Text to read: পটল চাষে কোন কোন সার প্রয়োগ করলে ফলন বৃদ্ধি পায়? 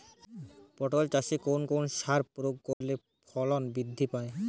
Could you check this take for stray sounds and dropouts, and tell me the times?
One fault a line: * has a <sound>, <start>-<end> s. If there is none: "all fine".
* has a dropout, 2.7-2.8 s